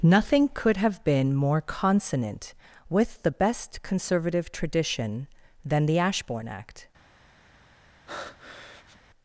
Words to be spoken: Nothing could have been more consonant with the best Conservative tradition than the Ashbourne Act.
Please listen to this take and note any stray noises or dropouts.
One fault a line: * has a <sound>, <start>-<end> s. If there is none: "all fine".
* has a breath, 8.1-9.0 s